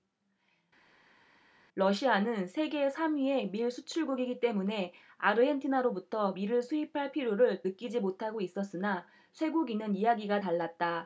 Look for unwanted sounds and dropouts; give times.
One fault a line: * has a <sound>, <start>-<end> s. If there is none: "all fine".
all fine